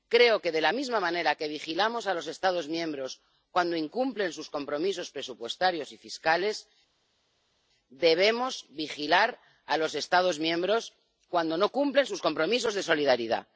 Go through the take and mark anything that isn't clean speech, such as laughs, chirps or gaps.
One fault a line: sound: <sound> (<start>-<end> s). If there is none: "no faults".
no faults